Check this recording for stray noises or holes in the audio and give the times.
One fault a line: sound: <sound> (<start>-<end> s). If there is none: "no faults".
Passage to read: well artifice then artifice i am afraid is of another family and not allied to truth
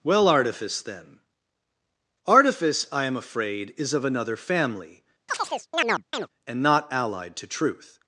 sound: chirp (5.3-6.3 s)